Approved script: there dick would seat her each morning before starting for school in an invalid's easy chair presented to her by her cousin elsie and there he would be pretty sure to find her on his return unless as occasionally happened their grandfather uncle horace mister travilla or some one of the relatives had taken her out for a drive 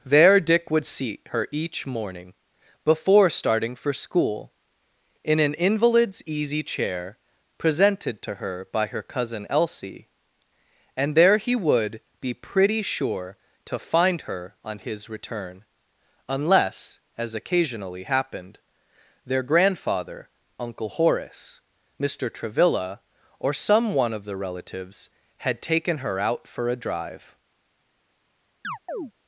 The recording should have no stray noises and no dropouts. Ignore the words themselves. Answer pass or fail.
fail